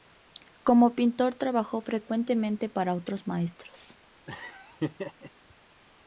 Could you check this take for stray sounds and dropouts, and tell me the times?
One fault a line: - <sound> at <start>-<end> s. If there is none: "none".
- laugh at 4.3-5.3 s